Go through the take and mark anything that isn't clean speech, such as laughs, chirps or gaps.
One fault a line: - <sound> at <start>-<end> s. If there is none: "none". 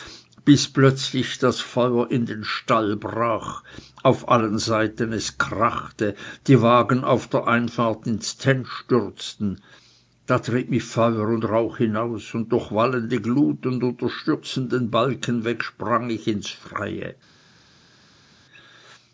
none